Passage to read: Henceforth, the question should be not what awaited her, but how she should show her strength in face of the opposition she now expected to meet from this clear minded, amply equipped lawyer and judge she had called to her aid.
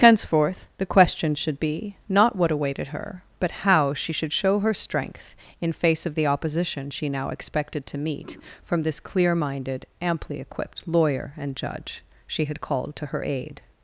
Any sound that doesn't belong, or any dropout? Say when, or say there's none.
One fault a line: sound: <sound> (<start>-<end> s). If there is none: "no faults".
no faults